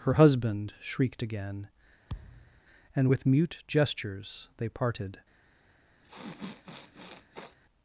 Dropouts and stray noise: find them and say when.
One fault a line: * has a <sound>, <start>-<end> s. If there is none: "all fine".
* has a thud, 2.1-2.6 s
* has a sniff, 6.0-7.6 s